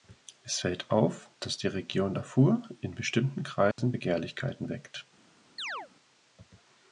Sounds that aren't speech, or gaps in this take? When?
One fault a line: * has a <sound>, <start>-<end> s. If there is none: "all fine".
* has a dropout, 3.7-3.8 s
* has a chirp, 5.6-5.9 s